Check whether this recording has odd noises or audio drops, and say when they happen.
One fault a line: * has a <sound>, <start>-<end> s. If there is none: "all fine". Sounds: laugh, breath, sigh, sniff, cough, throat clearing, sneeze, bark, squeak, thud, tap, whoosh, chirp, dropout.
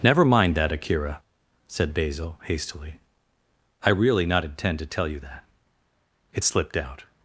all fine